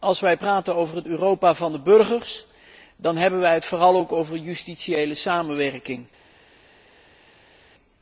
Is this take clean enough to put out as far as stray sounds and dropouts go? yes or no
yes